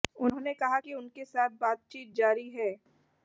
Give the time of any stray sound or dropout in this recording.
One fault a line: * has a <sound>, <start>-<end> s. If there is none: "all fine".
all fine